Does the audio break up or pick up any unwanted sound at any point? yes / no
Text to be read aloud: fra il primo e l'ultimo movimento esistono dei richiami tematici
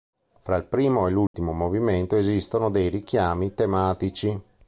yes